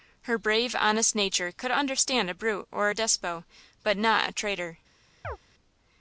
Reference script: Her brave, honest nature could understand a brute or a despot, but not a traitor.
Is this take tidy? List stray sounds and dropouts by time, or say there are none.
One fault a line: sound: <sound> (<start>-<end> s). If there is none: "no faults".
sound: chirp (5.2-5.4 s)